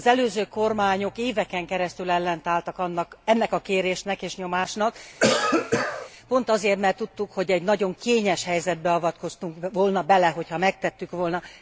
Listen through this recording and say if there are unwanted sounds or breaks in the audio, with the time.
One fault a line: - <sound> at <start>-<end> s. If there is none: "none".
- cough at 5.2-6.1 s